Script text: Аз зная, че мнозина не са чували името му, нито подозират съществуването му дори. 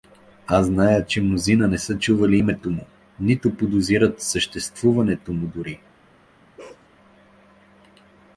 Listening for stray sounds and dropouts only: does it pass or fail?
fail